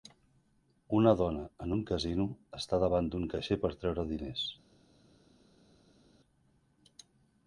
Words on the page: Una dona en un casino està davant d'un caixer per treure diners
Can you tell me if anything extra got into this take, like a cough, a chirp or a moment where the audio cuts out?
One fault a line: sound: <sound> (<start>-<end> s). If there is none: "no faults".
no faults